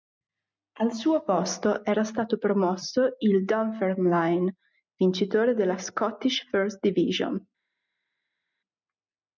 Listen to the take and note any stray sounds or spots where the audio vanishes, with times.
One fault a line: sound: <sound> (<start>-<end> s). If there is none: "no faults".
no faults